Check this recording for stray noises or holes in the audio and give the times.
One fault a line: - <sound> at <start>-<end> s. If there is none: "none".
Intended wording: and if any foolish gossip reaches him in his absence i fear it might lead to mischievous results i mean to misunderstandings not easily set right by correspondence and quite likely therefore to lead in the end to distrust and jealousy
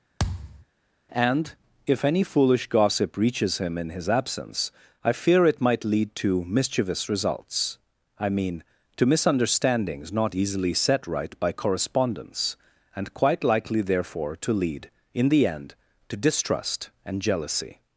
- thud at 0.2-0.7 s